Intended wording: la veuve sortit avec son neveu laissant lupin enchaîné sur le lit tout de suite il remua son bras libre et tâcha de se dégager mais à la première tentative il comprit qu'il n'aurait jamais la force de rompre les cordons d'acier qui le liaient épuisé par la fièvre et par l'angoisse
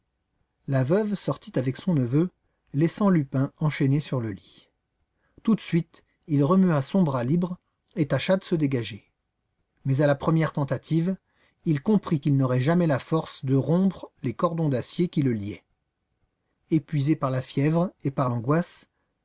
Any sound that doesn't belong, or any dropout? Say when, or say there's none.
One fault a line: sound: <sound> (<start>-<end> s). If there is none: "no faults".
no faults